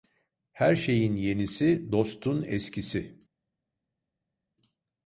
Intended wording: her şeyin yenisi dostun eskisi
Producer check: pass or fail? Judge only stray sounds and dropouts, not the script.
pass